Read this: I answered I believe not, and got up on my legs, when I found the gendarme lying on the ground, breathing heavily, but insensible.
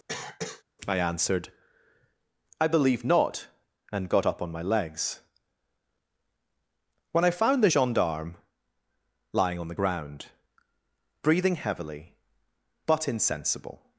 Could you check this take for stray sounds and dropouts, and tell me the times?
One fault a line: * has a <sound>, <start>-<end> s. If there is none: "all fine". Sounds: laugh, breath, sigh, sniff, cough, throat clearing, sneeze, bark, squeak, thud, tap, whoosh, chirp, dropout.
* has a cough, 0.1-0.6 s